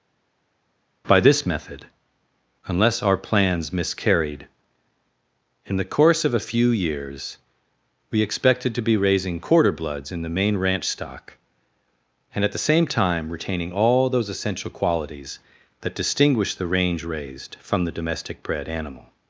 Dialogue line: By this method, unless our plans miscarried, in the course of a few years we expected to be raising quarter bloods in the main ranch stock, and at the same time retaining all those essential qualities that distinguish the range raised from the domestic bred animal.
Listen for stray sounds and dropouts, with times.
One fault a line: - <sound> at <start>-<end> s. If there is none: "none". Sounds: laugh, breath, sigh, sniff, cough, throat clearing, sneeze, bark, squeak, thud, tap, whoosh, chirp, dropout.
none